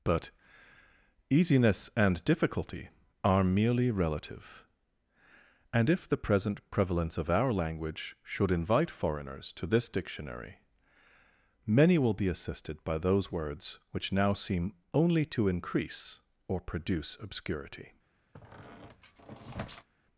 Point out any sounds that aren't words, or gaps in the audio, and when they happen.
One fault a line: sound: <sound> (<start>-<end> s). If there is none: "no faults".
sound: squeak (18.3-19.9 s)